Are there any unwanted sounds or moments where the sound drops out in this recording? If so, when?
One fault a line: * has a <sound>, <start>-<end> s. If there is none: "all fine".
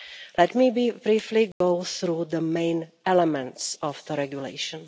* has a dropout, 1.5-1.6 s